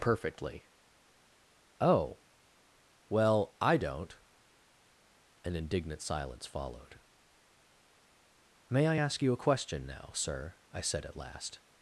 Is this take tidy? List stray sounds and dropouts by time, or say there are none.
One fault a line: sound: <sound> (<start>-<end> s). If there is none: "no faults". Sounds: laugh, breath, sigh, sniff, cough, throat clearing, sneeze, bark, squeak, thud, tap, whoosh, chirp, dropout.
no faults